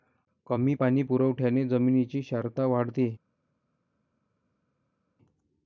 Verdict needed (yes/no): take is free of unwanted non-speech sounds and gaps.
yes